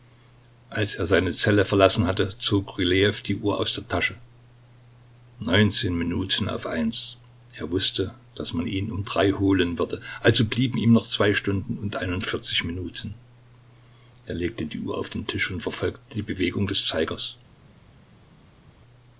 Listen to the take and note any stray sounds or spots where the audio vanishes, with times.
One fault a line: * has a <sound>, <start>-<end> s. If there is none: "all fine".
all fine